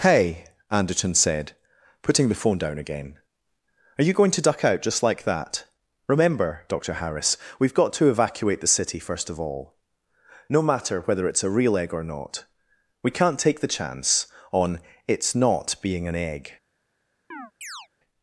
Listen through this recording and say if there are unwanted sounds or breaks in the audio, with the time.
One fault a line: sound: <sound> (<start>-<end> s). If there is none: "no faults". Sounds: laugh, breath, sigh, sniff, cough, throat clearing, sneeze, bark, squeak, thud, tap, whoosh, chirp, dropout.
sound: chirp (17.3-17.9 s)